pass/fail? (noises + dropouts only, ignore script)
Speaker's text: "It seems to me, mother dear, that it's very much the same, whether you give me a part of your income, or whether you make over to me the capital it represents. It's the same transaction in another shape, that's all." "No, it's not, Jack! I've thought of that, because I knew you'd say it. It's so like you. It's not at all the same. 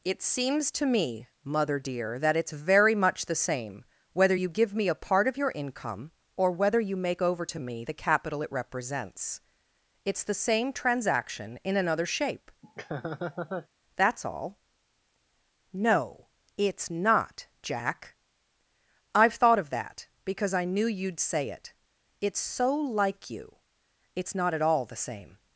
fail